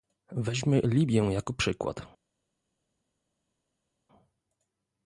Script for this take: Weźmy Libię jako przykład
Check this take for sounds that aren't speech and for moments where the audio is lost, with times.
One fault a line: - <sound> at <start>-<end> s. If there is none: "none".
none